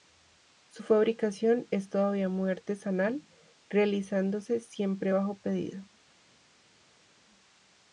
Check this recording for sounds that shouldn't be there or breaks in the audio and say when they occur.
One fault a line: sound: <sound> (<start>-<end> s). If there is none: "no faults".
no faults